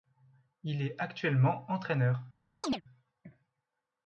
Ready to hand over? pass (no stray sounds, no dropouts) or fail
fail